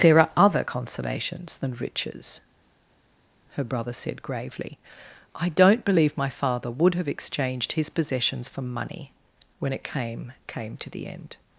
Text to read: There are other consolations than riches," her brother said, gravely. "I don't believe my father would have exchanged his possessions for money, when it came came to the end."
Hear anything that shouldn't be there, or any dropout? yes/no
no